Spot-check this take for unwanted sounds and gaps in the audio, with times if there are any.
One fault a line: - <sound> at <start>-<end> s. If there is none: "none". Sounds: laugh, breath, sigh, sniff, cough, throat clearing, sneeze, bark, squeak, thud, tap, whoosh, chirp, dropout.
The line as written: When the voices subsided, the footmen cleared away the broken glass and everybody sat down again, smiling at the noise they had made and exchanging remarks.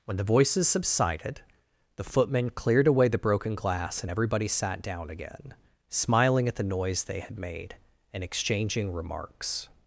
none